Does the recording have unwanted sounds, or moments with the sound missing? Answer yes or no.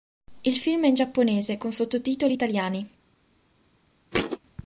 yes